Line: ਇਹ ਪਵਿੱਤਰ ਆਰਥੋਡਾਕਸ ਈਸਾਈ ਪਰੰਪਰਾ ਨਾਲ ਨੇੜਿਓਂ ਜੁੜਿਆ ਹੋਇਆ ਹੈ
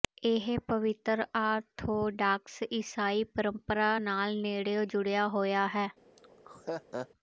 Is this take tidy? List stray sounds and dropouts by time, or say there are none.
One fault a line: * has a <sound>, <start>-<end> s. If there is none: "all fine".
* has a laugh, 6.2-7.1 s